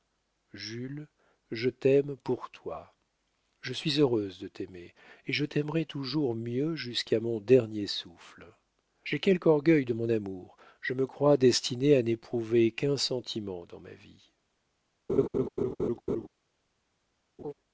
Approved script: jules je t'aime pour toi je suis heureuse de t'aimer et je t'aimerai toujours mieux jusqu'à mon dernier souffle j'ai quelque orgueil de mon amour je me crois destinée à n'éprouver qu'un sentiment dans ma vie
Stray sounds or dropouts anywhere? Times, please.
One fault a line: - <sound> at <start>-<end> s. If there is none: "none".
- laugh at 15.1-16.3 s
- laugh at 17.4-17.5 s